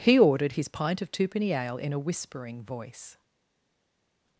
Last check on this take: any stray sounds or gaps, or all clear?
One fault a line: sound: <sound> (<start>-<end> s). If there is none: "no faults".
no faults